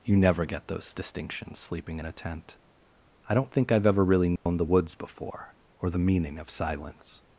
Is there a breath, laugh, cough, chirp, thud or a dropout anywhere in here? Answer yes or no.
yes